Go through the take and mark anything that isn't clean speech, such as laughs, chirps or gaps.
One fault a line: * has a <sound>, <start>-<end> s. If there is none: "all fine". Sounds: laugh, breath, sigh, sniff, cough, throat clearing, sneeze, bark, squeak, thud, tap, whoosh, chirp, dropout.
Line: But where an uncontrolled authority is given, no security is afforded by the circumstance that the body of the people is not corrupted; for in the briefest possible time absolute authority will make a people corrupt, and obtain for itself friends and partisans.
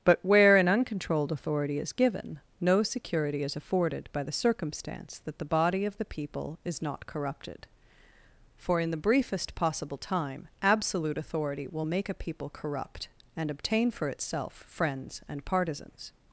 all fine